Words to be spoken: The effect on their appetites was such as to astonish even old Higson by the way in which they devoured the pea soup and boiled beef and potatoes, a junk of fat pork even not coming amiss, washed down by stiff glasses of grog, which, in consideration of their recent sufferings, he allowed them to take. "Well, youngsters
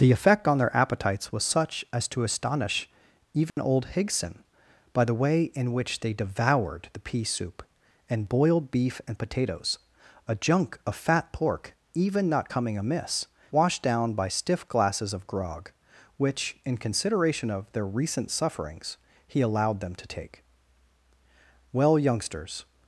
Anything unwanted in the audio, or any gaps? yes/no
yes